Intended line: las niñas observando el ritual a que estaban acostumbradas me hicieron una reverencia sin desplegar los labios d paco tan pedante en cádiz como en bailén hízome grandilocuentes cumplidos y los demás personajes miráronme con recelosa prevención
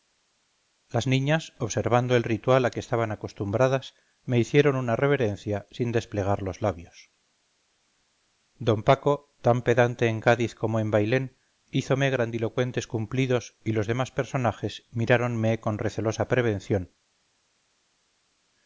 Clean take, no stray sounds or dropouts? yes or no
yes